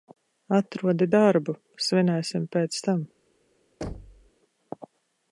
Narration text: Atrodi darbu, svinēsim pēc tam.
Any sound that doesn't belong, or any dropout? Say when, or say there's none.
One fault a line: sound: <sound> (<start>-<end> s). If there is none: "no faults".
sound: thud (3.8-4.3 s)